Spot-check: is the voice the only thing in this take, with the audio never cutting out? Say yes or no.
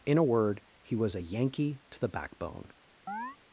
no